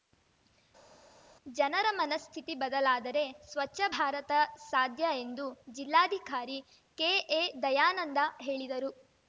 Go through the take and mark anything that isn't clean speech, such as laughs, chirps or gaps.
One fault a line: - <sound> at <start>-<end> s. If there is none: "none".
none